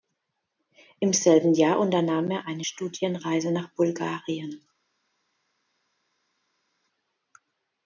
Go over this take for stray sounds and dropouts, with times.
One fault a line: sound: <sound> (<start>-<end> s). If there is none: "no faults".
no faults